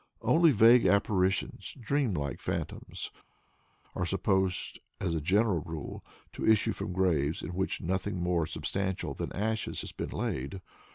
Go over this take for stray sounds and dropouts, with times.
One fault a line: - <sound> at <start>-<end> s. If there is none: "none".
none